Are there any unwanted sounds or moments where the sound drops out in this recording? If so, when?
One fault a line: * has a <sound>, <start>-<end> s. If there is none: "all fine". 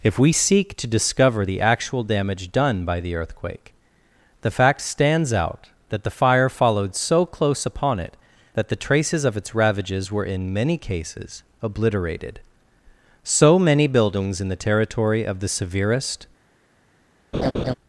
* has a laugh, 17.3-17.7 s